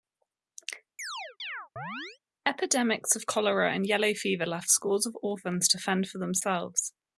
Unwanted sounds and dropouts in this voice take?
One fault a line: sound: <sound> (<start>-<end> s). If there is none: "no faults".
sound: chirp (1.0-2.2 s)